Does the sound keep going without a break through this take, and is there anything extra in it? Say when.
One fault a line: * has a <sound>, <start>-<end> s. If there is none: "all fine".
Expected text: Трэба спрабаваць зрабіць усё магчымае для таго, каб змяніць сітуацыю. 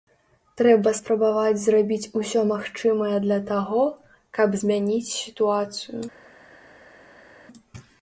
all fine